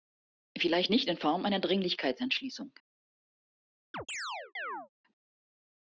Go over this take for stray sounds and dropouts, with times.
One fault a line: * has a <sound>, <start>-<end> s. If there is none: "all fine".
* has a chirp, 3.9-4.9 s